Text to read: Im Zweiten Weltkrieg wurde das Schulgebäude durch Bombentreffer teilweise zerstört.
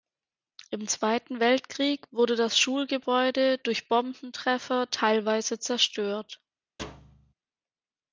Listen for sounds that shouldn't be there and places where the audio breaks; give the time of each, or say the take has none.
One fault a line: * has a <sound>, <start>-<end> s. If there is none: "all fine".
* has a thud, 6.8-7.3 s